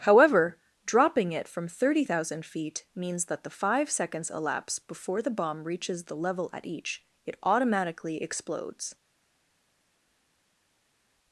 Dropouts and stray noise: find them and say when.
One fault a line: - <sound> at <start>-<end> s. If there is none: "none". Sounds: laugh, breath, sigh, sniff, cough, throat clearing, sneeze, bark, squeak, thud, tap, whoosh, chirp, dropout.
none